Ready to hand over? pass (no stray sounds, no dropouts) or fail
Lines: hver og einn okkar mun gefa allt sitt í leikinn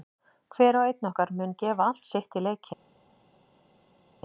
pass